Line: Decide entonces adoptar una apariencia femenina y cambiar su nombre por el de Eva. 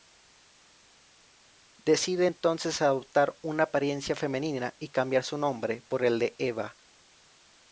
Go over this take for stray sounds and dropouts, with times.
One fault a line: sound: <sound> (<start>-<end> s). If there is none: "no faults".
no faults